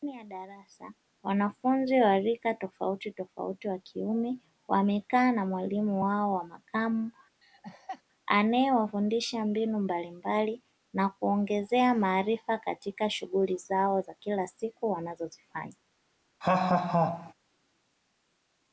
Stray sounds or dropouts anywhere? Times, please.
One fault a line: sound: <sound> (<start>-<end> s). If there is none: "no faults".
sound: laugh (7.4-8.0 s)
sound: laugh (16.4-17.3 s)